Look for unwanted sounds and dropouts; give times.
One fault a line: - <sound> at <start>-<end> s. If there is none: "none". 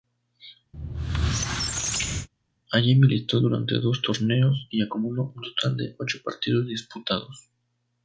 - squeak at 0.7-2.3 s